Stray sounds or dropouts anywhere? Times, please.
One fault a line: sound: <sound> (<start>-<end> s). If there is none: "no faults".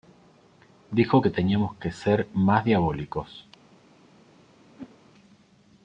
sound: whoosh (4.7-5.0 s)